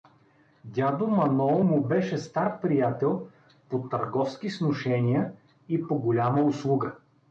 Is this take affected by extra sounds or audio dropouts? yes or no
no